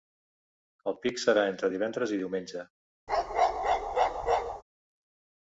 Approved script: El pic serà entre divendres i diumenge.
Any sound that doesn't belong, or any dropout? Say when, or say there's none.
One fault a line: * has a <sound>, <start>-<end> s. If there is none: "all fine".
* has a bark, 3.1-4.6 s